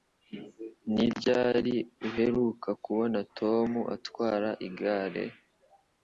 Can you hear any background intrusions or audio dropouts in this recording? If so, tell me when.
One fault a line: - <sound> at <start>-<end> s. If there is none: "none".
none